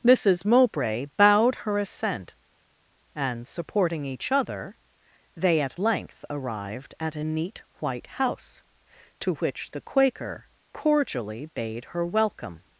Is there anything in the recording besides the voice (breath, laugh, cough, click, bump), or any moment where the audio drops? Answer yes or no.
no